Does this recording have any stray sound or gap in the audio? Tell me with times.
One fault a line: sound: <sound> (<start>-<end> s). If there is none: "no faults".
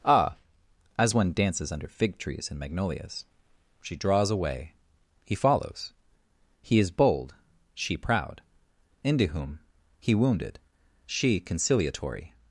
no faults